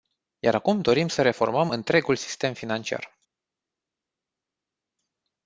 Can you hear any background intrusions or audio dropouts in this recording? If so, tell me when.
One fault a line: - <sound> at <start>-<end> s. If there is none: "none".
none